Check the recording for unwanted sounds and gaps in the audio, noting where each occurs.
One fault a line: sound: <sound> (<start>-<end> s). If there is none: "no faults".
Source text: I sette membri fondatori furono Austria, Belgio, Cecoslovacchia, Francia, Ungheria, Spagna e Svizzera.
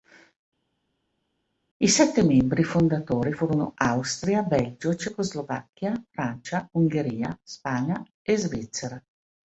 no faults